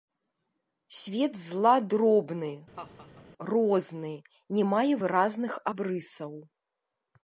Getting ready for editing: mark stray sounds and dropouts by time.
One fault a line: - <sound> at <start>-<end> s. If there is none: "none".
- laugh at 2.8-3.3 s